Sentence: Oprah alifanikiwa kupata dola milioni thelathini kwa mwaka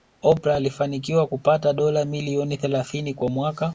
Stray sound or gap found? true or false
false